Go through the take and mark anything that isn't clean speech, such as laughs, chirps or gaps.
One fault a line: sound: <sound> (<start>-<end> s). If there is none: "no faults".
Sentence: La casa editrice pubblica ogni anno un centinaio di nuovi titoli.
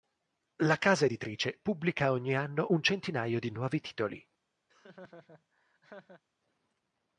sound: laugh (4.7-6.2 s)